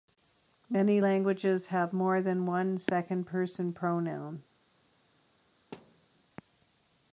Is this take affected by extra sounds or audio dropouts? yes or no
yes